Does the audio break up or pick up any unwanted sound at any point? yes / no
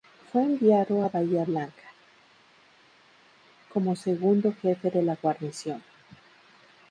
no